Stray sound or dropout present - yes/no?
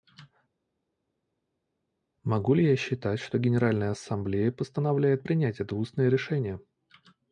no